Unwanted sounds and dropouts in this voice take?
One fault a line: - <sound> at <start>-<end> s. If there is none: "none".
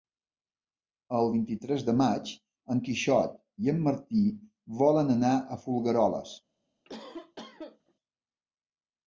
- cough at 6.8-7.9 s